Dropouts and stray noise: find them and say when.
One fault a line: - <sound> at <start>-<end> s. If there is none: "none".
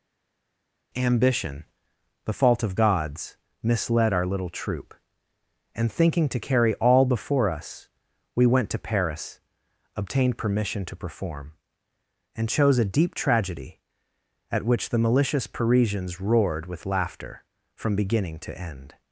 none